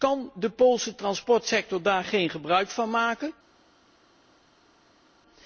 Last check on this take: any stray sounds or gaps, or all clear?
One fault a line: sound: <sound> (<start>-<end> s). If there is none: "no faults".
no faults